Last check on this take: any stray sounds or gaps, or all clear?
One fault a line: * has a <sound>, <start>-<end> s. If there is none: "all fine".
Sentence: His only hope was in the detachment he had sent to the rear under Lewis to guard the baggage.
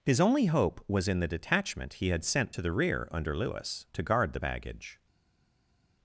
all fine